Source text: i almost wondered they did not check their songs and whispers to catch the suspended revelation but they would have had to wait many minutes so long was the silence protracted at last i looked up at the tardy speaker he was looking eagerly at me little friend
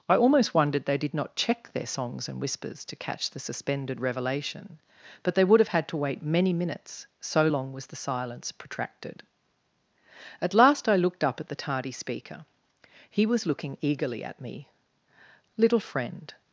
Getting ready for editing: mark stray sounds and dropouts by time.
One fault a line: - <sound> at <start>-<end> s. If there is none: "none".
none